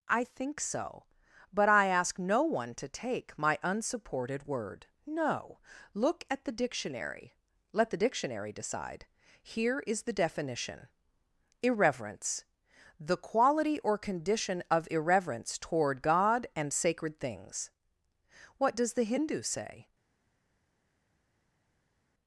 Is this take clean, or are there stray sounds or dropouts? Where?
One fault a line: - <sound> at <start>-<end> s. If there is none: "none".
none